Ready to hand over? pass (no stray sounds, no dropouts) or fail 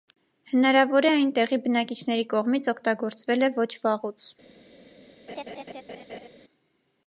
fail